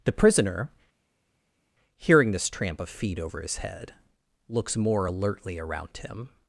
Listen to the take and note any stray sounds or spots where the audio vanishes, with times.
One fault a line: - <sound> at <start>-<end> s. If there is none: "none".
none